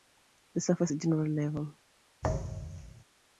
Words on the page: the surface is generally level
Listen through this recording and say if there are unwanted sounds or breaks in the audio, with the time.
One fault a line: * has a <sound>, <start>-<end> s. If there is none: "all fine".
* has a thud, 2.2-3.0 s